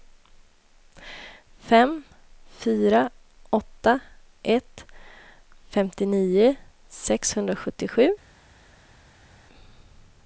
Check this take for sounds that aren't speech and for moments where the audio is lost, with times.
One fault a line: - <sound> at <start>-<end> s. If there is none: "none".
none